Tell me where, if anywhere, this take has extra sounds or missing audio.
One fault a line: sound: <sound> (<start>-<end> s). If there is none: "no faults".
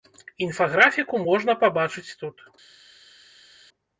no faults